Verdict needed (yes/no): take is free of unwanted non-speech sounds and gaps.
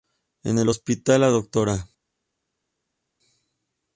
yes